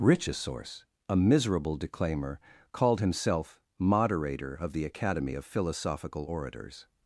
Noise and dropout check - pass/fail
pass